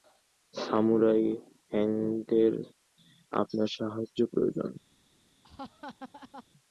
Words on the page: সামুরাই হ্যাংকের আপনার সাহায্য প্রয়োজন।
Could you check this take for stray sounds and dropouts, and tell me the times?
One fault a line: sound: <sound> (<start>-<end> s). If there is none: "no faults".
sound: laugh (5.4-6.4 s)